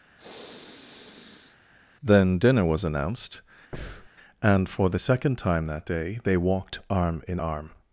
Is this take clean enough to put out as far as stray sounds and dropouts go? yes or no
no